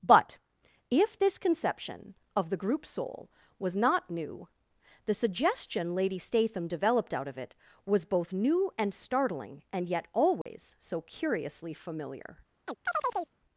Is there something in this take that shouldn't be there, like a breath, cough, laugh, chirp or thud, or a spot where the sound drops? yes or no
yes